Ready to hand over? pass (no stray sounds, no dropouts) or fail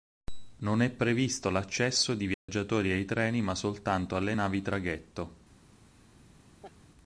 fail